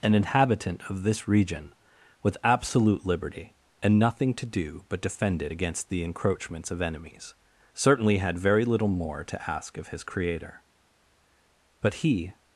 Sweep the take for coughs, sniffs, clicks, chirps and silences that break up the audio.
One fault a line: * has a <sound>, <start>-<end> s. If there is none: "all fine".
all fine